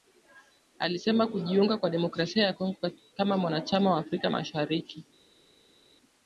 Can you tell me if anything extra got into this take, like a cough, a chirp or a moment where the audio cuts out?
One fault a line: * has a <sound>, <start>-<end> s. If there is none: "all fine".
all fine